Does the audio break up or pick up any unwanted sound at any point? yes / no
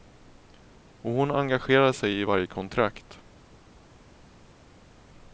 no